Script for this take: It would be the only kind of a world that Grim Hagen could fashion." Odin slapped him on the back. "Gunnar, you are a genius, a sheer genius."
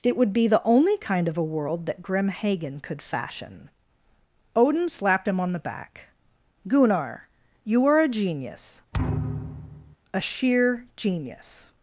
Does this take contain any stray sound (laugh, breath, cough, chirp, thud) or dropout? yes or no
yes